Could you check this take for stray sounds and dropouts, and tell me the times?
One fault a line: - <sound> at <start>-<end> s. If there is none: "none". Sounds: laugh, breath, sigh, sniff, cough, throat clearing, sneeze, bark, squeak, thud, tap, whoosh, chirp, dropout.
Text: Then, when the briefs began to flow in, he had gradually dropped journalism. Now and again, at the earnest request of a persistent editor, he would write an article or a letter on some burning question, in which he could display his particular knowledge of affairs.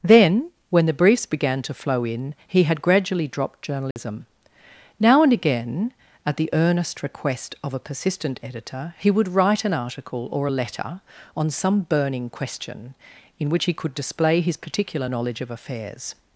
- dropout at 3.9-4.0 s